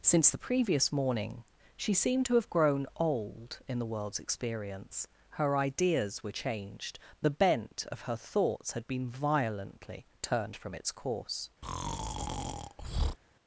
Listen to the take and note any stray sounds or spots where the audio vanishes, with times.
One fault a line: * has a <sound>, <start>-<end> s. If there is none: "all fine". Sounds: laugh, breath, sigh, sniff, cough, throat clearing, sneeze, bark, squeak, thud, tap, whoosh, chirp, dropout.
* has a breath, 11.6-13.2 s